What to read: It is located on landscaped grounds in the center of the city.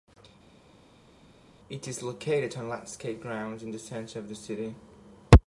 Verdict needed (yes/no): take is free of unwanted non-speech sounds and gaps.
yes